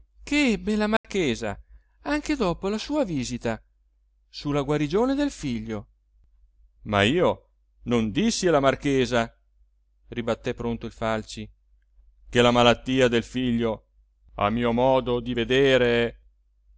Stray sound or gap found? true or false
true